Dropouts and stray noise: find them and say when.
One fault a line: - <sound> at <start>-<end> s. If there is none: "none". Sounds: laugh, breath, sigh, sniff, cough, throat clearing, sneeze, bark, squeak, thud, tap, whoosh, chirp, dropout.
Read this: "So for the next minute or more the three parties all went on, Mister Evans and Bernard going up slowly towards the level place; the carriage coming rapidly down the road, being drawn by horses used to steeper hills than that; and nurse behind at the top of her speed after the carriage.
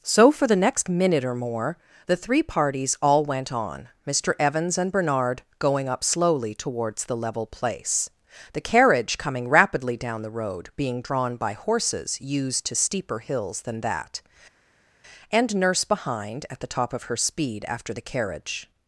none